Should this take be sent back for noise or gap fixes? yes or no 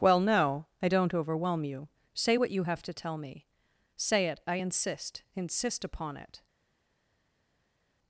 no